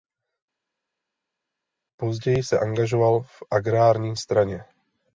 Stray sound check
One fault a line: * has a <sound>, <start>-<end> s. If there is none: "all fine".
all fine